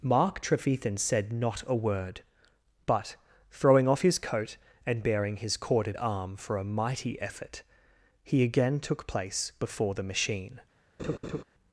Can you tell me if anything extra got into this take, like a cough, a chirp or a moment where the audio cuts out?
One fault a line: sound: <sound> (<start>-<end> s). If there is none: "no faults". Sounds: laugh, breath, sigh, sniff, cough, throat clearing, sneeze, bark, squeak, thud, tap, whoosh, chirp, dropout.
sound: laugh (11.0-11.4 s)